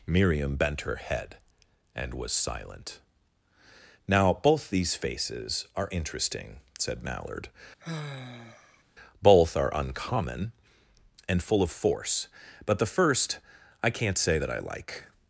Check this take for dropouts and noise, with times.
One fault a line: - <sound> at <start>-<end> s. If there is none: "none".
- sigh at 7.8-8.8 s